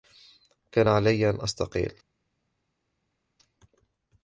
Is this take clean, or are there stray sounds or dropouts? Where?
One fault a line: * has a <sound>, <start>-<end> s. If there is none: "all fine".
all fine